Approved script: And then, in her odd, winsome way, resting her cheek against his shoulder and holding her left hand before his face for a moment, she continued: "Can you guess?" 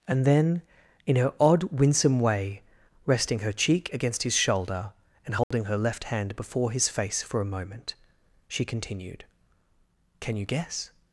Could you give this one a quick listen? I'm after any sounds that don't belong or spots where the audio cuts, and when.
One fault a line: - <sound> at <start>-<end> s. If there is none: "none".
- dropout at 5.4-5.5 s